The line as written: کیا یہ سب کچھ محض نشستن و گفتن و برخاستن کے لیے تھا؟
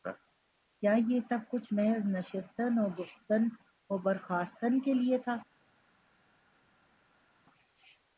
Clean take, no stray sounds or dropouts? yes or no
yes